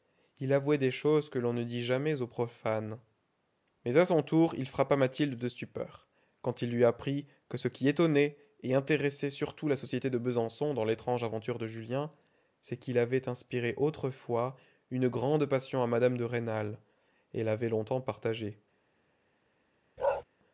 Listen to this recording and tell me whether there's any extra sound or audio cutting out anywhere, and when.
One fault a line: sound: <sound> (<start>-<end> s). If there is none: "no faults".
sound: bark (20.0-20.2 s)